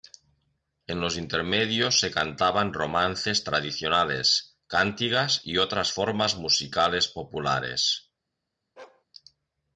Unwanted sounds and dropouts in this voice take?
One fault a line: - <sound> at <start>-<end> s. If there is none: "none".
- bark at 8.8-9.0 s